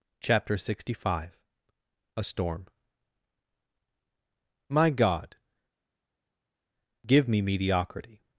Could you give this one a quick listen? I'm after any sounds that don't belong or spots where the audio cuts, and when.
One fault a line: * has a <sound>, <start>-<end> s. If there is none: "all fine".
all fine